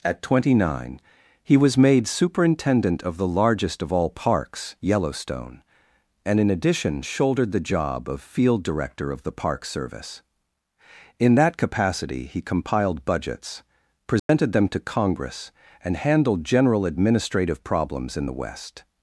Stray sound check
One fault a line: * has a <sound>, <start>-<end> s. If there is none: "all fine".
* has a dropout, 14.2-14.3 s